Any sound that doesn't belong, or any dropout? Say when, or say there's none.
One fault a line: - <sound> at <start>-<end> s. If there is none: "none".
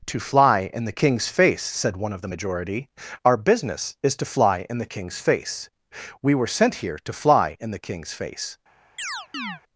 - chirp at 9.0-9.6 s